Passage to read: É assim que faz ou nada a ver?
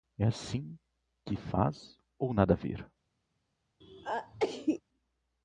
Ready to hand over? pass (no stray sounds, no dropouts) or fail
fail